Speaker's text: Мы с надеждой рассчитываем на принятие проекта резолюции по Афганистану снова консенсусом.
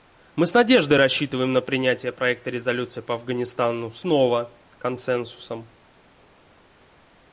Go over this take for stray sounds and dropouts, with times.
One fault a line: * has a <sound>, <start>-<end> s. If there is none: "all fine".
all fine